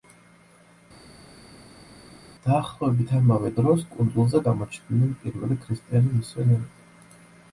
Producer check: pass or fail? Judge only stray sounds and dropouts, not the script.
pass